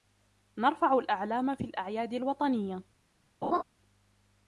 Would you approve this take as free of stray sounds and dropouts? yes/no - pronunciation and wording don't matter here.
no